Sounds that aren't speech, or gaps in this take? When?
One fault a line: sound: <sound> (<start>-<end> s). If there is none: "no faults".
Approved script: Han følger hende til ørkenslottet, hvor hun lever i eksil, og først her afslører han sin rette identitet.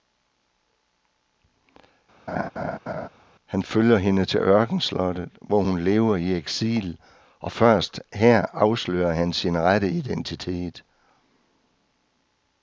sound: laugh (2.3-3.1 s)